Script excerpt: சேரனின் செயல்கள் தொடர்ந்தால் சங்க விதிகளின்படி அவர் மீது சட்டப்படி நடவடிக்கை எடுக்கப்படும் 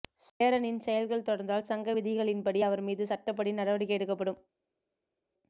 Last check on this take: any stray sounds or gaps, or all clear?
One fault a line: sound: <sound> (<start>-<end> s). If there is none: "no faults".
no faults